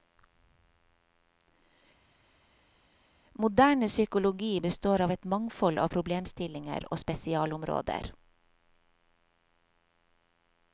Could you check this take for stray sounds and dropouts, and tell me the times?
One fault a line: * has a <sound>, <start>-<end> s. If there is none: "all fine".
all fine